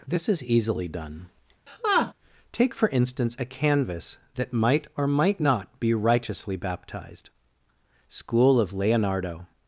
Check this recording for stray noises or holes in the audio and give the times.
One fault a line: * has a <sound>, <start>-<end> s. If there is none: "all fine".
* has a laugh, 1.7-2.1 s